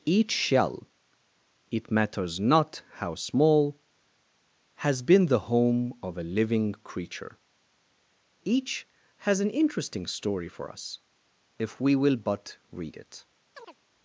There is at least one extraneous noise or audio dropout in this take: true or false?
true